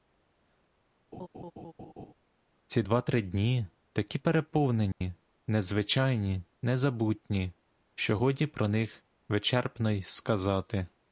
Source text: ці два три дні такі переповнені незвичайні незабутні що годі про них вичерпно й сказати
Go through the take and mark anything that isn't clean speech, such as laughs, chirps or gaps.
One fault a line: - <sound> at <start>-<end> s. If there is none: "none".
- laugh at 1.1-2.1 s
- dropout at 4.9-5.0 s